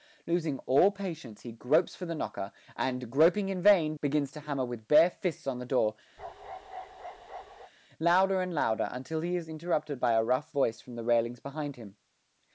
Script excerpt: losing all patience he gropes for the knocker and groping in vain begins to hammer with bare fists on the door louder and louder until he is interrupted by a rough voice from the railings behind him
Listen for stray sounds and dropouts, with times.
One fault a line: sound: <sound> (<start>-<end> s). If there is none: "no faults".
sound: bark (6.2-7.7 s)